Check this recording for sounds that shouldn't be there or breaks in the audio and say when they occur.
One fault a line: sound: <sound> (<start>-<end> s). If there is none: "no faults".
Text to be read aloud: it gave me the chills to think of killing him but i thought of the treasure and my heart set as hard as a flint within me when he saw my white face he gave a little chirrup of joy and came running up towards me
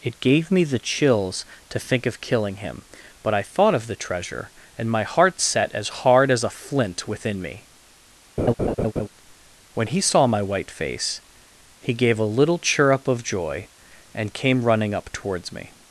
sound: laugh (8.4-9.1 s)